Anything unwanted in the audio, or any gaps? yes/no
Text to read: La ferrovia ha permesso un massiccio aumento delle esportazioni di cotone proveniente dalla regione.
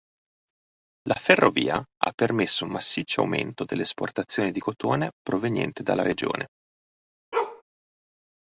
yes